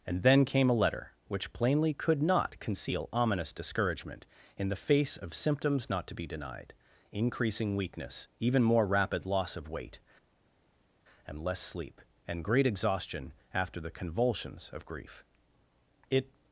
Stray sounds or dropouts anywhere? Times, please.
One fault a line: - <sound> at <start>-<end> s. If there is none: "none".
none